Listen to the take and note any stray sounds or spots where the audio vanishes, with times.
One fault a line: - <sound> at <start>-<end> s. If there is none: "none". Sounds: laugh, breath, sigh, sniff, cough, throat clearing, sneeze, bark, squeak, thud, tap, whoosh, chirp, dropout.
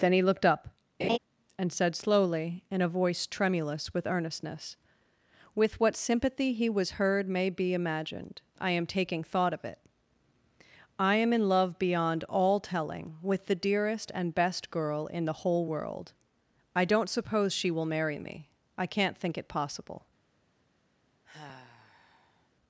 - laugh at 1.0-1.2 s
- sigh at 21.2-22.5 s